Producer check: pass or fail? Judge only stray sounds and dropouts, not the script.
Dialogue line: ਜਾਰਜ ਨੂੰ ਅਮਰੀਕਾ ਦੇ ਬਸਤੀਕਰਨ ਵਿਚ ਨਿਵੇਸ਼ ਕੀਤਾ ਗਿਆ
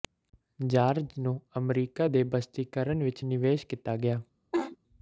fail